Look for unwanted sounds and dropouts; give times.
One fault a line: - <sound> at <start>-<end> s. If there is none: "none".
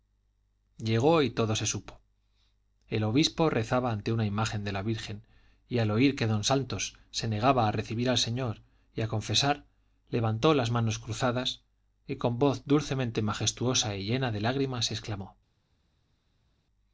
none